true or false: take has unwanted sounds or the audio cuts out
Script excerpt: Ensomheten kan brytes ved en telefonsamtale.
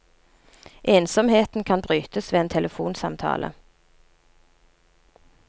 false